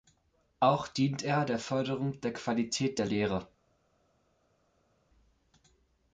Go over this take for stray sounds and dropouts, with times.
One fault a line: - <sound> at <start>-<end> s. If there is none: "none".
none